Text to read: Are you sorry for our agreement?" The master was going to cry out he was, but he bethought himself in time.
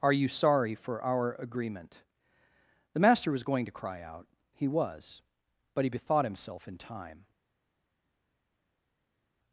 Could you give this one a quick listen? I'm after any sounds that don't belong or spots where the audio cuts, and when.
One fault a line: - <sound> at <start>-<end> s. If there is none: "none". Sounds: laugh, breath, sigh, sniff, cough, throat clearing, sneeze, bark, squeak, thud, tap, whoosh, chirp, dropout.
none